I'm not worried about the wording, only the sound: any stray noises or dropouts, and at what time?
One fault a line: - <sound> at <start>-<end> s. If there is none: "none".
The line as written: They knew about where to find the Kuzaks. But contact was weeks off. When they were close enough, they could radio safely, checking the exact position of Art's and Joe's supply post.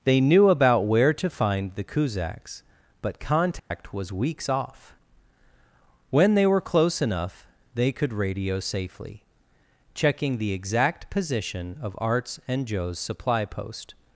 - dropout at 3.6-3.7 s